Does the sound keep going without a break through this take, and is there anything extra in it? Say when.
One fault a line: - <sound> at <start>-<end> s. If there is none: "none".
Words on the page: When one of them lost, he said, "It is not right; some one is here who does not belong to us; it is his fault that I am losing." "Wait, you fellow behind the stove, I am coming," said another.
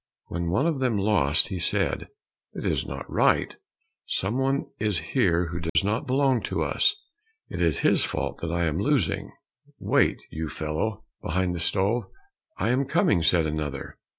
- dropout at 5.7-5.8 s